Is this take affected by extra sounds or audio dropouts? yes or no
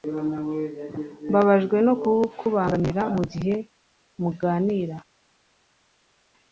no